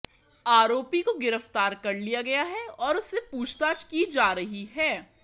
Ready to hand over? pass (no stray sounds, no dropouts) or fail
pass